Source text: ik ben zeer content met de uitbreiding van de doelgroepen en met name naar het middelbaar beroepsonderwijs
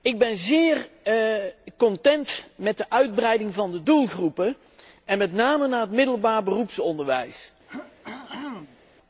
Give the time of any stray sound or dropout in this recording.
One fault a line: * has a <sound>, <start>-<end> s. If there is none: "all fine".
* has a throat clearing, 7.7-8.8 s